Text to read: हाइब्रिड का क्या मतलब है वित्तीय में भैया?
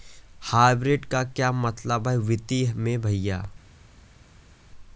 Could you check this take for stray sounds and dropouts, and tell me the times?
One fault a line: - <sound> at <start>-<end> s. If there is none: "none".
none